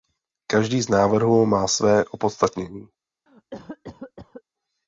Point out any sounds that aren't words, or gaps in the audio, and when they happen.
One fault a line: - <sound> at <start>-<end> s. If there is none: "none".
- cough at 3.3-4.4 s